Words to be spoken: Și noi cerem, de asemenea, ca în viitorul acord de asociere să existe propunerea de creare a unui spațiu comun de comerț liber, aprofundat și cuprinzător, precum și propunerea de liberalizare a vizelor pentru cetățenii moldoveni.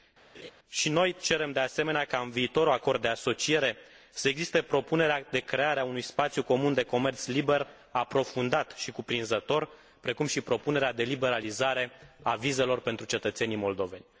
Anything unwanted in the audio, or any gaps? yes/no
yes